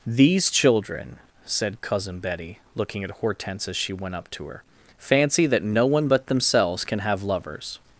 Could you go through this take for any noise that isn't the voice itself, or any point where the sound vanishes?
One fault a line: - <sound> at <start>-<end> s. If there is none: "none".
none